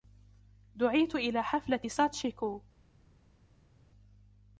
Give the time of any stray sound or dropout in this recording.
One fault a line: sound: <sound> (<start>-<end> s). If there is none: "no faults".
no faults